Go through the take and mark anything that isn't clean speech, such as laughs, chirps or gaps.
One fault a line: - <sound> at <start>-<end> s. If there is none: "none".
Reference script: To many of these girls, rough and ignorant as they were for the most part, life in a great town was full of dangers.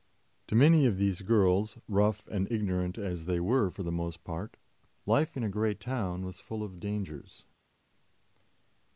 none